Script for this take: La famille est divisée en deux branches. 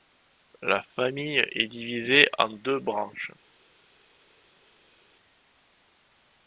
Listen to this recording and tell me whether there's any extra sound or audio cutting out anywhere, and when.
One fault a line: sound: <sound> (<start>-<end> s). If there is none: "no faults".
no faults